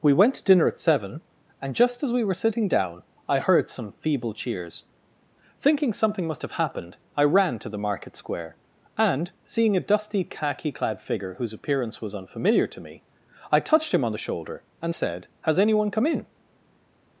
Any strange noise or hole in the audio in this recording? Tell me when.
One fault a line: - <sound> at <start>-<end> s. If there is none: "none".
none